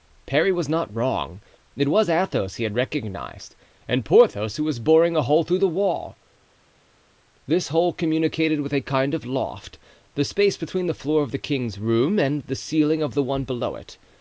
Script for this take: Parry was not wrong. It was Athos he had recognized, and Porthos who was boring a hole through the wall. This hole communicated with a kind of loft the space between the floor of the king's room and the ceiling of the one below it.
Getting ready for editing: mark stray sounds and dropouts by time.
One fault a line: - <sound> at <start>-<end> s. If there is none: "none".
none